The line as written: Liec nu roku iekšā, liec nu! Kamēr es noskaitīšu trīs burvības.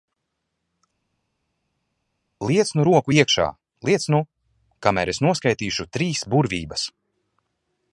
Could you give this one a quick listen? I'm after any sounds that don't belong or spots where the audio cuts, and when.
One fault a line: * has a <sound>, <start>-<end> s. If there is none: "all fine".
all fine